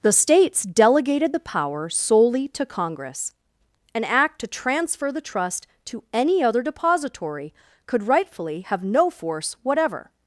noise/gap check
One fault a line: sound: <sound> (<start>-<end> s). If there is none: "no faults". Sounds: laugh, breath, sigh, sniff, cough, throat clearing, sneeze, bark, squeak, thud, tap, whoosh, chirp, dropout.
no faults